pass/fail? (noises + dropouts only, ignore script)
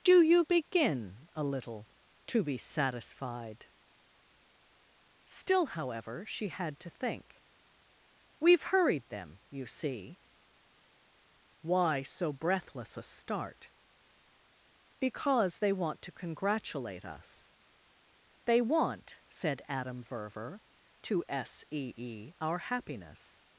pass